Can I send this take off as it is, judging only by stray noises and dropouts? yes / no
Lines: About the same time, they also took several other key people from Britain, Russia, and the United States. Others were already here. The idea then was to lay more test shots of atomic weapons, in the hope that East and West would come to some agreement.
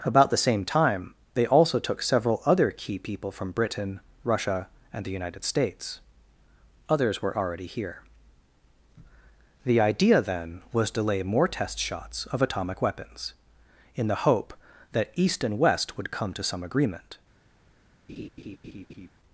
no